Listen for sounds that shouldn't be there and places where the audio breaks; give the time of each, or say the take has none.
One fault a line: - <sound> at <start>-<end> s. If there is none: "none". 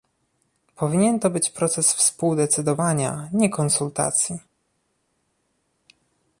none